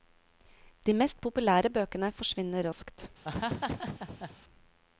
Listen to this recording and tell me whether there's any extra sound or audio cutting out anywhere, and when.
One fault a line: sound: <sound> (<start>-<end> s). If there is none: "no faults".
sound: laugh (3.2-4.4 s)